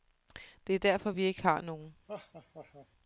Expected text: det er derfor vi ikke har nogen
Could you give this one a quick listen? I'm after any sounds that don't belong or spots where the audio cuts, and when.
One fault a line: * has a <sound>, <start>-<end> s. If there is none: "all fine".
* has a laugh, 2.1-2.9 s